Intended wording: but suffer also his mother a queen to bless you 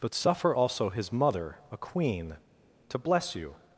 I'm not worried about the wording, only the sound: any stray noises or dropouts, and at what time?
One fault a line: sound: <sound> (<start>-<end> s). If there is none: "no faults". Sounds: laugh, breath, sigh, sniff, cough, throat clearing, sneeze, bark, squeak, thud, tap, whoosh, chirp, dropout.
no faults